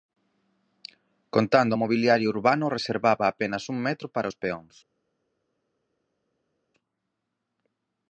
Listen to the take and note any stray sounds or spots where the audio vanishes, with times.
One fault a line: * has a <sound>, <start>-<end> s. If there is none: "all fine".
all fine